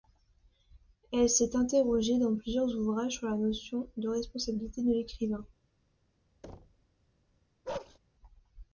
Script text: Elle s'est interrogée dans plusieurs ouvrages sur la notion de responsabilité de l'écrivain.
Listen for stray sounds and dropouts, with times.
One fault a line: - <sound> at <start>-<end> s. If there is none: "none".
- thud at 6.4-6.9 s
- bark at 7.6-8.0 s